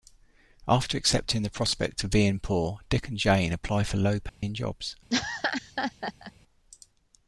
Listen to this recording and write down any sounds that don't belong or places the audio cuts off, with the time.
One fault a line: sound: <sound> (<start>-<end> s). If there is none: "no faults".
sound: dropout (4.3-4.4 s)
sound: laugh (5.1-6.3 s)